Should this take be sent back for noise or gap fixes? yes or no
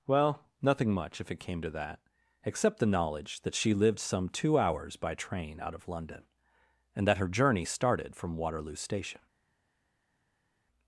no